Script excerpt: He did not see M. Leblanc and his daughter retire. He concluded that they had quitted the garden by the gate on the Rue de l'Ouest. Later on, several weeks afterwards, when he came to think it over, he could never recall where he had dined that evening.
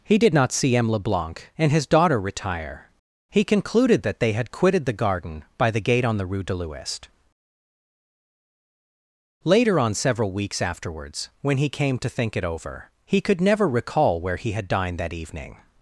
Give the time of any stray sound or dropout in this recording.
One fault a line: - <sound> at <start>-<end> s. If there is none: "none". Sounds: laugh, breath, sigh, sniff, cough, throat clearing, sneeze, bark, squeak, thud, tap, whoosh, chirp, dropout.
none